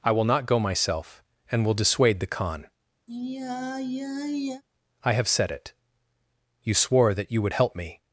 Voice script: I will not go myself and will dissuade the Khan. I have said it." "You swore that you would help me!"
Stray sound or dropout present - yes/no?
yes